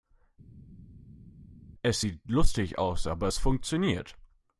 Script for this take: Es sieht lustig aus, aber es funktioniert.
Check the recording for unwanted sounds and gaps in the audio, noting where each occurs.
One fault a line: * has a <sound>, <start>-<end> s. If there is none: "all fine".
all fine